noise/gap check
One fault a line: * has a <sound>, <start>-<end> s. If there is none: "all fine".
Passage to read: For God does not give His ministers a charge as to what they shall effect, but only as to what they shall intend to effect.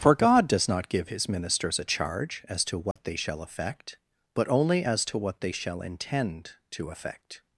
* has a dropout, 2.9-3.0 s